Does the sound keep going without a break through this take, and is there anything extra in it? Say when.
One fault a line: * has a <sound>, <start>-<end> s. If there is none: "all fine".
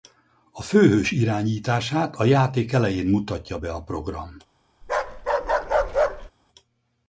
* has a bark, 4.8-6.3 s